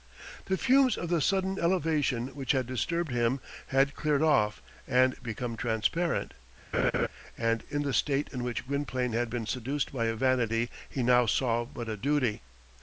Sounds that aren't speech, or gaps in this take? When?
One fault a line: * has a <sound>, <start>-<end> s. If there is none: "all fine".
* has a laugh, 6.7-7.1 s